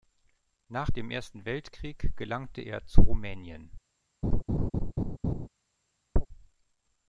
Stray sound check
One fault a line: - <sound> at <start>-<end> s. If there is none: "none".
- laugh at 4.2-5.5 s
- chirp at 6.2-6.3 s